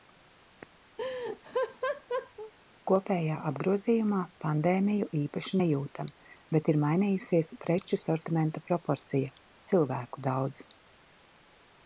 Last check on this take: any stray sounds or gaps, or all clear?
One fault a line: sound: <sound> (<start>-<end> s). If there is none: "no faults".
sound: laugh (1.0-2.5 s)